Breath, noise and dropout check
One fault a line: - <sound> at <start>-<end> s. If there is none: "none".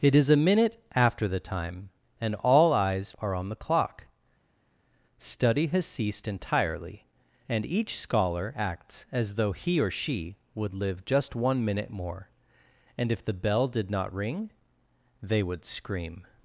none